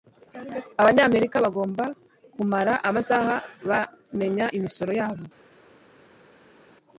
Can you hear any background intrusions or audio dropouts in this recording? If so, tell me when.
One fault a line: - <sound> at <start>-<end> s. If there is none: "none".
none